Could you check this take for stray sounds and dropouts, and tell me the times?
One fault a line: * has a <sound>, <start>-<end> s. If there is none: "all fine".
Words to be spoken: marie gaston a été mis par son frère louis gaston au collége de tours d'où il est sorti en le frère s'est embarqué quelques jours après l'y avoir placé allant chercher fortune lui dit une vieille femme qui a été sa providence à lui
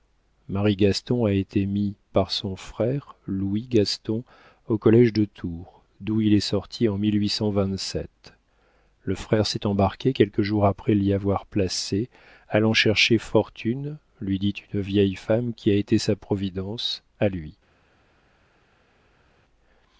all fine